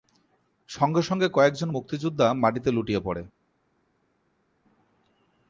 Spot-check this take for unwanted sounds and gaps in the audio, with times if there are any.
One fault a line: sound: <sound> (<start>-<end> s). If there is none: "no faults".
no faults